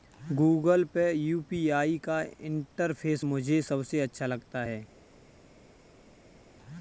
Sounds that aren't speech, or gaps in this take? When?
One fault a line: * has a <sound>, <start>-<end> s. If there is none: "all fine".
all fine